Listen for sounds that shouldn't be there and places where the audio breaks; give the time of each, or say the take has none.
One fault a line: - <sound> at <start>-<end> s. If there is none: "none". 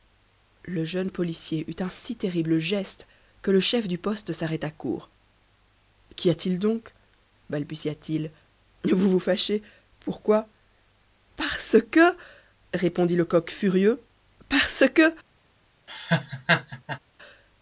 - laugh at 15.9-17.0 s